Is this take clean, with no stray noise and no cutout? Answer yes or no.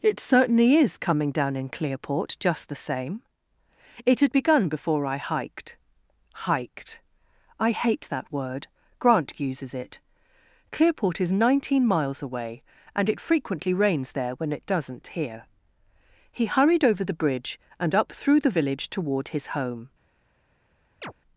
no